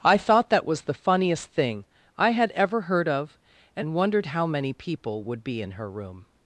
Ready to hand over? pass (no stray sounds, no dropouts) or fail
pass